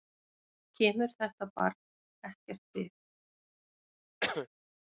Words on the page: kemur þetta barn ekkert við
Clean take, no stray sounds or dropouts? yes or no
no